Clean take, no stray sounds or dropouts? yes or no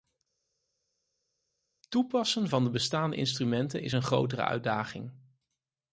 yes